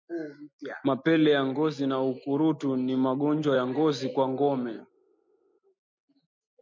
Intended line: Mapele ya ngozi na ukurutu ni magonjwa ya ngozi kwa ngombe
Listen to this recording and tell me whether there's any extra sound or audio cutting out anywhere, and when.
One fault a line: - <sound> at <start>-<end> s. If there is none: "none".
none